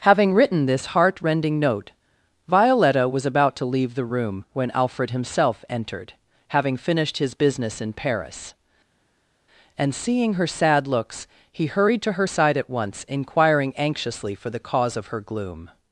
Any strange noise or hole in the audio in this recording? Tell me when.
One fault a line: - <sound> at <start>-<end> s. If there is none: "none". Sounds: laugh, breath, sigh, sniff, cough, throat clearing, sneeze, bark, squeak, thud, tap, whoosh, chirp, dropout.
none